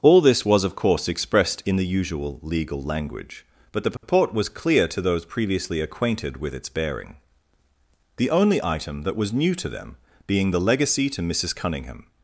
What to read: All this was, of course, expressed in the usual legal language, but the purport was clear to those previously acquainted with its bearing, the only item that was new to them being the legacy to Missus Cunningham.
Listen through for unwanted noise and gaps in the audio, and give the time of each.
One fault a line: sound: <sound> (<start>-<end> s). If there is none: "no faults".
sound: dropout (4.0-4.0 s)